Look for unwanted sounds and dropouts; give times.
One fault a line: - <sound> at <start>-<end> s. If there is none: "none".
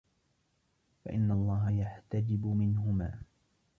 none